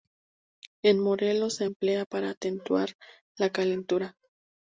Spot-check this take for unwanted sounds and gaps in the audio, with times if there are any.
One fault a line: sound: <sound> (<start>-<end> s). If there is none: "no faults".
no faults